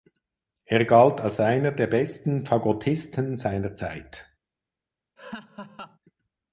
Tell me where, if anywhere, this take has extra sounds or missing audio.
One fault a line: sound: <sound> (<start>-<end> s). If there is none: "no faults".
sound: laugh (5.2-6.0 s)